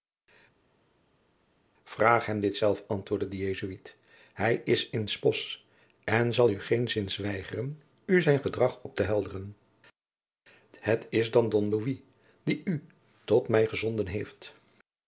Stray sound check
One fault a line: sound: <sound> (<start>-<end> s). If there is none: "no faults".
no faults